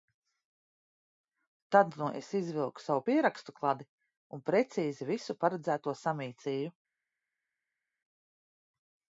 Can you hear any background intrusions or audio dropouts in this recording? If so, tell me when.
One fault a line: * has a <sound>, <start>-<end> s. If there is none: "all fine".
all fine